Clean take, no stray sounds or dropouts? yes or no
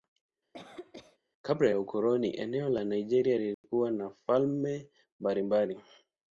no